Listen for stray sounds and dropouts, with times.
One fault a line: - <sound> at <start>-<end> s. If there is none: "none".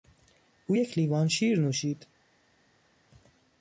none